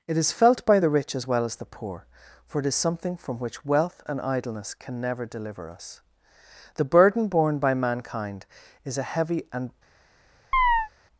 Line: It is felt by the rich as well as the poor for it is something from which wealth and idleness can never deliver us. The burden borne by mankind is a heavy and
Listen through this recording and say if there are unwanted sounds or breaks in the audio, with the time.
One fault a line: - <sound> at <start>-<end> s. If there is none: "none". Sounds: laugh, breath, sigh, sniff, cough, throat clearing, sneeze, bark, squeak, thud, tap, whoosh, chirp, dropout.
- chirp at 10.5-10.9 s